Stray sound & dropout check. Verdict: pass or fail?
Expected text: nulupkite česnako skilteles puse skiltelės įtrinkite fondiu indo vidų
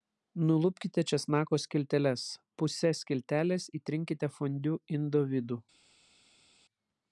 pass